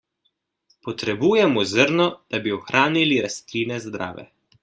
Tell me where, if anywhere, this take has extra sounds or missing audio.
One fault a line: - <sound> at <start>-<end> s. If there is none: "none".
none